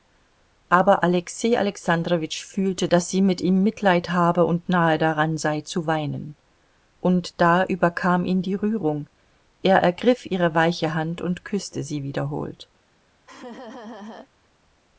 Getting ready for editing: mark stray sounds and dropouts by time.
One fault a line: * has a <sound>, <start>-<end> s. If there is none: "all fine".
* has a laugh, 13.3-14.3 s